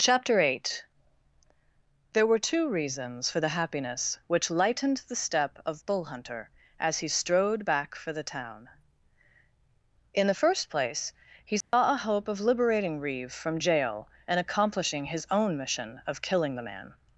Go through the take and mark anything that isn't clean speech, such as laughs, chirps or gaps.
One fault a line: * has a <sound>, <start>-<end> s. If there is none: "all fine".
* has a dropout, 11.6-11.7 s